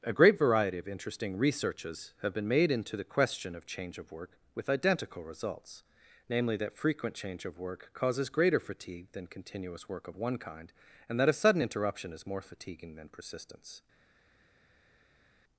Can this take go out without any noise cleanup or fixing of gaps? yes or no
yes